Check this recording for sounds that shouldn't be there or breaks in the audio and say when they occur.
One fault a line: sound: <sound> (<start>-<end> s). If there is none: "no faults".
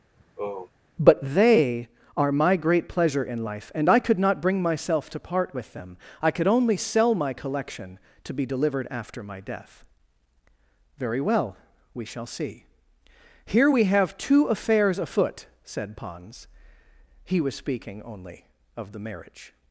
sound: sigh (0.2-0.7 s)